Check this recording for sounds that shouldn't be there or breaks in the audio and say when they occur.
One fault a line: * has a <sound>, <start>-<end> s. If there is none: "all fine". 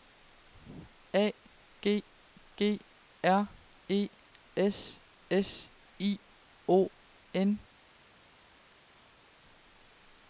all fine